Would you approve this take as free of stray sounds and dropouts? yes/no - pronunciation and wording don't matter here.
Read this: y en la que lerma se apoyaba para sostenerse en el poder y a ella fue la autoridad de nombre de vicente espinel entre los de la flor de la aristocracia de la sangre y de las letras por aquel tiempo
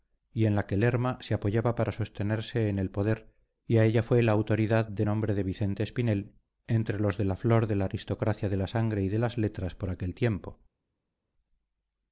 yes